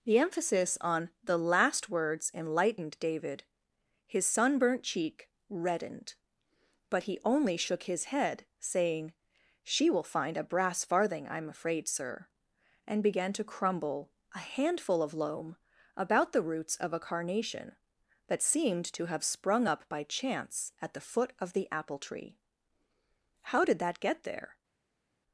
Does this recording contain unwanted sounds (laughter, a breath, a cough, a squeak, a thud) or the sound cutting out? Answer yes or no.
no